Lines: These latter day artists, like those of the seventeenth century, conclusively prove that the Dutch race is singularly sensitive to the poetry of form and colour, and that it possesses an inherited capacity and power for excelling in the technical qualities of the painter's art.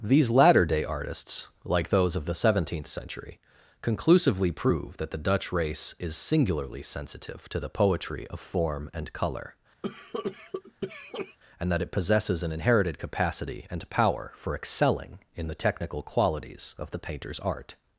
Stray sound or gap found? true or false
true